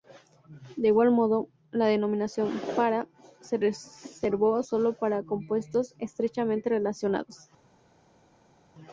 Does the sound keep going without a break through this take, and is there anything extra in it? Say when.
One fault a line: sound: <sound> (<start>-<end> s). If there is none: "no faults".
no faults